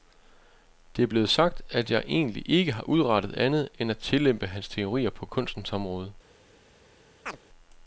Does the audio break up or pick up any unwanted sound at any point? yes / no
yes